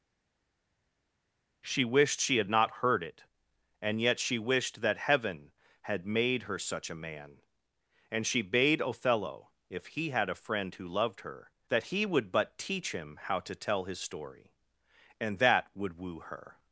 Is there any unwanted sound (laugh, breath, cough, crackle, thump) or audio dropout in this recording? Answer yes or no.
no